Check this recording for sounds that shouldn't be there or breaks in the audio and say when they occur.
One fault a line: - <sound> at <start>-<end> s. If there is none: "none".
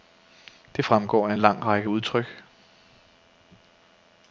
none